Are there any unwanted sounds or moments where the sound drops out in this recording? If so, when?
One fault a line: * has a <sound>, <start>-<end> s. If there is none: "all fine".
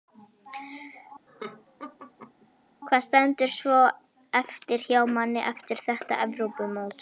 * has a laugh, 1.3-2.5 s